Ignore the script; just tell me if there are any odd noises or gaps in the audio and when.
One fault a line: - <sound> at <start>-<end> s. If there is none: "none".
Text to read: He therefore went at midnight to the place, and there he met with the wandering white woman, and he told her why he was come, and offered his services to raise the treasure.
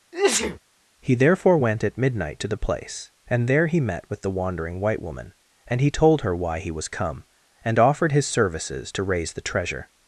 - sneeze at 0.1-0.6 s